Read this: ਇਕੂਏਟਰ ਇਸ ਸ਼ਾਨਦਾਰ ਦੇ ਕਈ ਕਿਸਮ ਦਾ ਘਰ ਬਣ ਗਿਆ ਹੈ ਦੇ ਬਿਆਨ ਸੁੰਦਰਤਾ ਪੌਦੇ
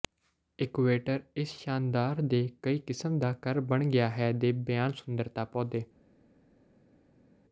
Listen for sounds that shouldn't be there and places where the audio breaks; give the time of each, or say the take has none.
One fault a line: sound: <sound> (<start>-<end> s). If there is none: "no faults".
no faults